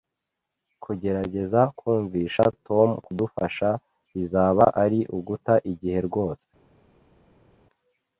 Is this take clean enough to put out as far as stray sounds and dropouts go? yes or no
yes